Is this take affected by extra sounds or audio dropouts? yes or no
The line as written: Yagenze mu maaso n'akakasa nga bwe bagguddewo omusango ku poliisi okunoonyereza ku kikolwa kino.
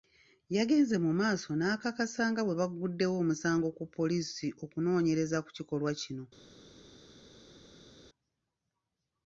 no